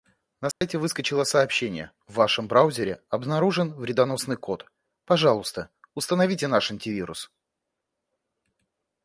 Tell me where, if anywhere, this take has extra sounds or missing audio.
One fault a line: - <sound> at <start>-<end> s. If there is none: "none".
- dropout at 0.5-0.6 s